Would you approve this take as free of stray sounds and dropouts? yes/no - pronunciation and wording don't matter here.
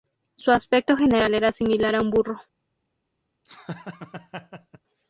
no